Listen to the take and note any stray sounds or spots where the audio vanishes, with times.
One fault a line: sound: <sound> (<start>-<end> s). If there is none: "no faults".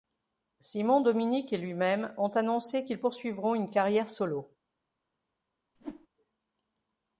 sound: whoosh (5.8-6.1 s)